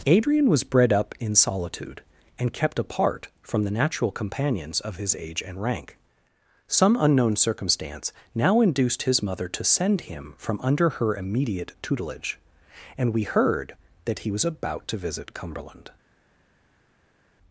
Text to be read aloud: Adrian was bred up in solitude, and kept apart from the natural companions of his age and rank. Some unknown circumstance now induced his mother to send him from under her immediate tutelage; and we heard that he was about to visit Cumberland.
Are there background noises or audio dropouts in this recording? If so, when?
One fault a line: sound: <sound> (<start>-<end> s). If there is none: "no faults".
no faults